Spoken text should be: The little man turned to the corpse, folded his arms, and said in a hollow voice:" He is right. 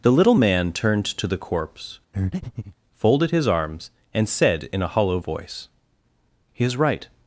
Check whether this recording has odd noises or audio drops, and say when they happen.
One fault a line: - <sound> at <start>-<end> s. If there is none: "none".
- breath at 2.1-2.8 s